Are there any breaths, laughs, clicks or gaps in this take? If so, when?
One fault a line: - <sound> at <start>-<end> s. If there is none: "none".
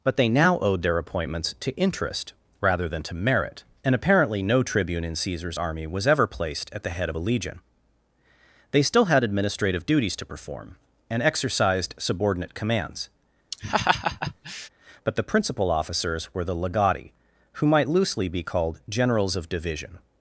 - laugh at 13.5-14.7 s